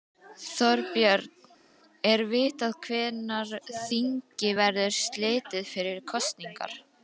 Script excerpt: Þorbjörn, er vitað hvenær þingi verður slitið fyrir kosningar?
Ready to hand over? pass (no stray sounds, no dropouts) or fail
pass